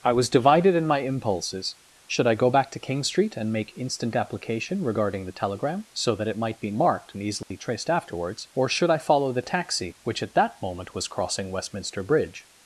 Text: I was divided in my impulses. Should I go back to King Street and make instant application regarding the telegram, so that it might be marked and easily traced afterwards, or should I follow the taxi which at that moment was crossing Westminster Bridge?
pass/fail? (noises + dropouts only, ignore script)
fail